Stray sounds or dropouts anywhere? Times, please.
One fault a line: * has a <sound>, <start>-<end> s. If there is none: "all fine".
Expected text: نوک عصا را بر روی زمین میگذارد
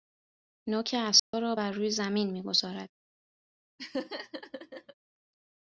* has a dropout, 1.2-1.3 s
* has a laugh, 3.8-4.9 s